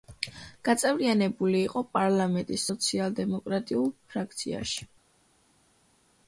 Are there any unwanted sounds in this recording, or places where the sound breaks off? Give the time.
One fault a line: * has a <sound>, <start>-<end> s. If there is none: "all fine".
all fine